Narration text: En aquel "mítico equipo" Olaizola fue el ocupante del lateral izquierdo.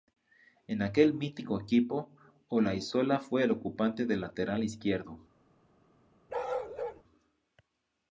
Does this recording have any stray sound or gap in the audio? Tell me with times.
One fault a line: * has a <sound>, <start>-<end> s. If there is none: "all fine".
* has a bark, 6.3-7.0 s